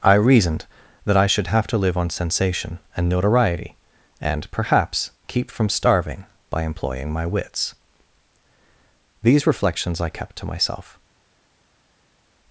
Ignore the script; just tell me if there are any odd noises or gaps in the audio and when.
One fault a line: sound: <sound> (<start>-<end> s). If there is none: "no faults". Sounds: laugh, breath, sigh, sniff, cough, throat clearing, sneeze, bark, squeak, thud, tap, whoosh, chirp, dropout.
no faults